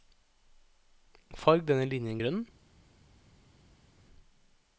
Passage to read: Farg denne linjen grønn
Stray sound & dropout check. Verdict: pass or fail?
pass